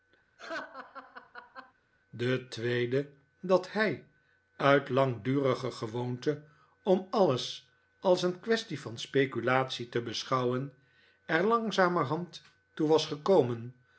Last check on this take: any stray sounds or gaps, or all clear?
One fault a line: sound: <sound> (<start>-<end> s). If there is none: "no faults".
sound: laugh (0.4-1.7 s)